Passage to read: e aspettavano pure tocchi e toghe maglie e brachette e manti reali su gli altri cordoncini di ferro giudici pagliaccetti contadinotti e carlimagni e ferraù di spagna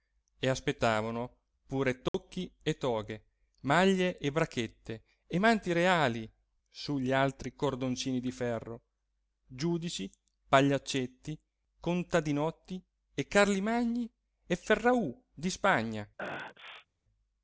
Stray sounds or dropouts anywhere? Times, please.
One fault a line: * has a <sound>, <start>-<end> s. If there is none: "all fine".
* has a dropout, 2.1-2.1 s
* has a sneeze, 16.2-16.9 s